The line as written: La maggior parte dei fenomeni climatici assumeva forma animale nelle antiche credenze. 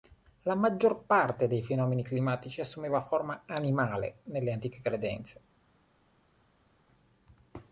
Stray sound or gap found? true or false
false